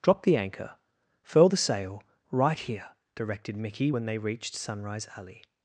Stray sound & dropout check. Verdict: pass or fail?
pass